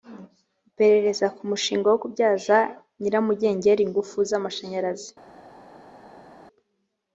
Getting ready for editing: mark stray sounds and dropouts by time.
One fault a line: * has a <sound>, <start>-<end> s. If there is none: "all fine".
all fine